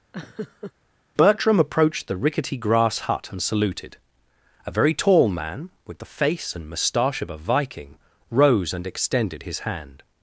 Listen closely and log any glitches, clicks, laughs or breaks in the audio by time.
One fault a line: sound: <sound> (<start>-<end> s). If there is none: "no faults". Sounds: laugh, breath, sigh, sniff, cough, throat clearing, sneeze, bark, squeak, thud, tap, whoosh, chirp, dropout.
sound: laugh (0.1-0.7 s)